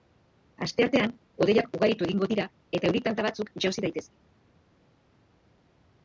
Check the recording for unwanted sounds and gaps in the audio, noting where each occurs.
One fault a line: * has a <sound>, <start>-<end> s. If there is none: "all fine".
all fine